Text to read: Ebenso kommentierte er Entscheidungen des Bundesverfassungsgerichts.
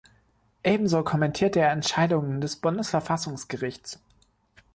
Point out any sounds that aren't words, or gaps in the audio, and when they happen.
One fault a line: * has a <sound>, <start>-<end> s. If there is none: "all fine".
all fine